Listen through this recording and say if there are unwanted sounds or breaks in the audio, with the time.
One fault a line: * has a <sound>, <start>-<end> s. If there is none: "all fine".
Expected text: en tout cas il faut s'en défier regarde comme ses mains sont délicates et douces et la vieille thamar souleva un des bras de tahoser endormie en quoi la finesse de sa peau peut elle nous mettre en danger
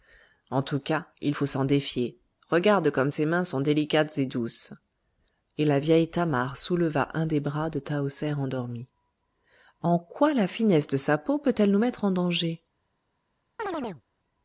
* has a chirp, 13.6-14.0 s